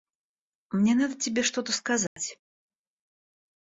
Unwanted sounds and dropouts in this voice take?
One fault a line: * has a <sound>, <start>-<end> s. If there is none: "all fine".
* has a dropout, 2.1-2.2 s